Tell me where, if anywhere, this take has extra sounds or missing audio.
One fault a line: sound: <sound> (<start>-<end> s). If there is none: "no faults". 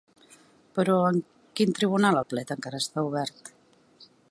no faults